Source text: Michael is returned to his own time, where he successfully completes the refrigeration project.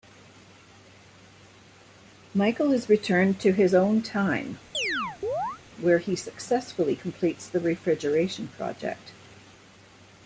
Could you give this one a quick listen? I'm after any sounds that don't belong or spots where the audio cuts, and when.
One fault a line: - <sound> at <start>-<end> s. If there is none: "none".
- chirp at 4.7-5.6 s